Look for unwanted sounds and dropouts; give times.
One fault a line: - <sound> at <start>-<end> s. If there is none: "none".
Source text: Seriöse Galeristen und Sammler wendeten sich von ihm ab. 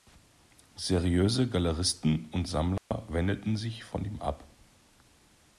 - dropout at 2.8-2.9 s